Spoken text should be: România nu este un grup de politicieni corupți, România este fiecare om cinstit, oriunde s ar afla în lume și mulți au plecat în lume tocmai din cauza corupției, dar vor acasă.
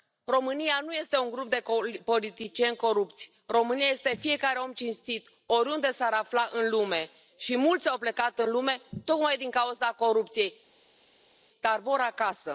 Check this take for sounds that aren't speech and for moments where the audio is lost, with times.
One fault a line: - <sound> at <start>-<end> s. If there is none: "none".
none